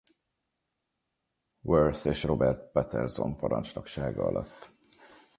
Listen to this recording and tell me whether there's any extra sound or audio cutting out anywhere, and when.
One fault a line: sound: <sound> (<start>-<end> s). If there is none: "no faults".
no faults